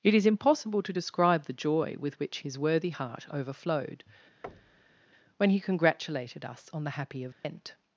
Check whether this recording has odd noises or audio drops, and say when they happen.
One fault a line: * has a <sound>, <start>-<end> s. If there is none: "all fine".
* has a thud, 4.4-5.0 s
* has a dropout, 7.3-7.4 s